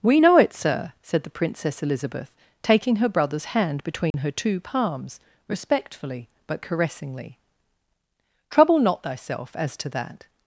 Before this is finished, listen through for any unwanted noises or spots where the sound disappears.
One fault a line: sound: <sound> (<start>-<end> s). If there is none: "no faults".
sound: dropout (4.1-4.1 s)